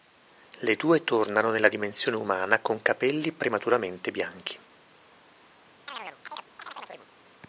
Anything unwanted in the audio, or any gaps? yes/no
yes